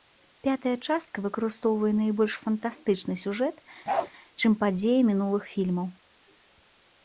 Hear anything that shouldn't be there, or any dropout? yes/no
yes